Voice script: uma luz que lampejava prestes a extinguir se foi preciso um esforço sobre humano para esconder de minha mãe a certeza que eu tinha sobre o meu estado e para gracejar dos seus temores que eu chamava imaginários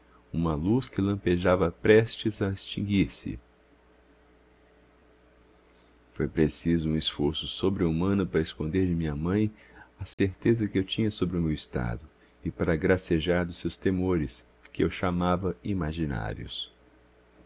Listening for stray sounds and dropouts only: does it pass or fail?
fail